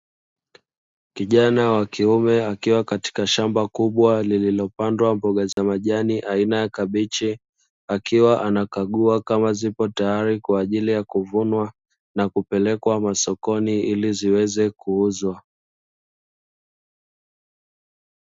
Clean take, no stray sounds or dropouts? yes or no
no